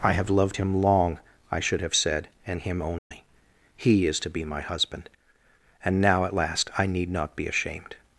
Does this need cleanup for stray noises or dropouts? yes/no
yes